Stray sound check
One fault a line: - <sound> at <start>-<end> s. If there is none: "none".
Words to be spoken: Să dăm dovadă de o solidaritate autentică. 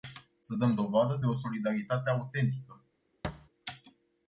- thud at 3.2-3.5 s